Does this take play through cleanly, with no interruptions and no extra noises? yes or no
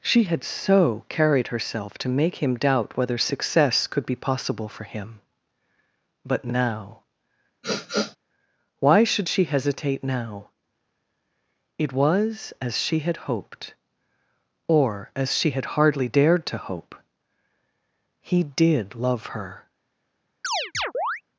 no